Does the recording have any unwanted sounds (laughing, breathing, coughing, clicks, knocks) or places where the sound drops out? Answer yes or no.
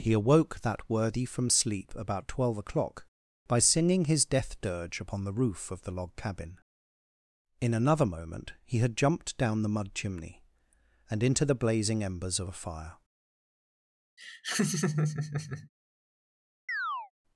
yes